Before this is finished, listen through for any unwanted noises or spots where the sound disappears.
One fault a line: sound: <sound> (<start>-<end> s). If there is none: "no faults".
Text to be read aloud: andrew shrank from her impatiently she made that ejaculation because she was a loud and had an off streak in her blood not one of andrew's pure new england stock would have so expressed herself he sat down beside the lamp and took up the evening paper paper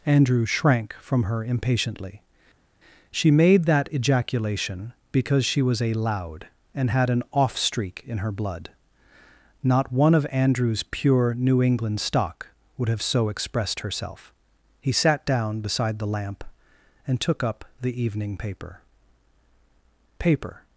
no faults